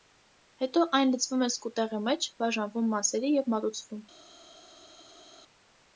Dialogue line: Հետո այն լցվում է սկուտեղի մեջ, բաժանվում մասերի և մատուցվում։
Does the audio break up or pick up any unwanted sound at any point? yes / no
no